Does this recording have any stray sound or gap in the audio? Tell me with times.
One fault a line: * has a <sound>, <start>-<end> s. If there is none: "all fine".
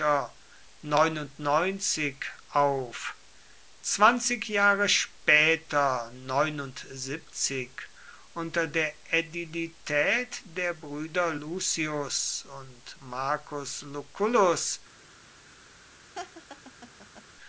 * has a laugh, 16.1-17.3 s